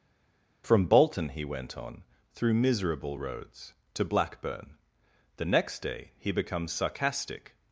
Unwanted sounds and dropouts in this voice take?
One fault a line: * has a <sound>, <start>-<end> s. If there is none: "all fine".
all fine